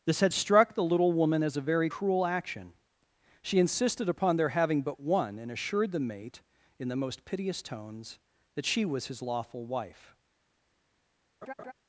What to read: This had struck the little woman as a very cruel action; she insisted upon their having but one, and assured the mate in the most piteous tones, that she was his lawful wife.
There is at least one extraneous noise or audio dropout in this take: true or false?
true